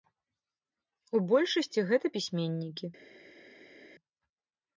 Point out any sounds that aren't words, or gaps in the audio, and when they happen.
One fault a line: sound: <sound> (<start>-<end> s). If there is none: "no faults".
no faults